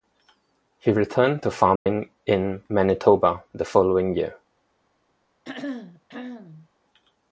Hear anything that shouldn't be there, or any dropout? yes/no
yes